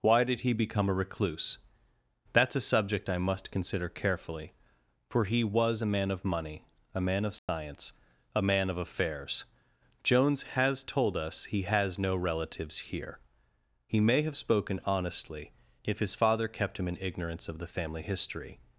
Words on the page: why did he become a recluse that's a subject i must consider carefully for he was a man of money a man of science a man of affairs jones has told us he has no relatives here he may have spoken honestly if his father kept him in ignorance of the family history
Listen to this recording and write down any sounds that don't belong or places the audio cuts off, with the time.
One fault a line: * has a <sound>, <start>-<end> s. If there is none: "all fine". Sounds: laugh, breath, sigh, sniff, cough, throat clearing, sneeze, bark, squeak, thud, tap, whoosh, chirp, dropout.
* has a dropout, 7.4-7.5 s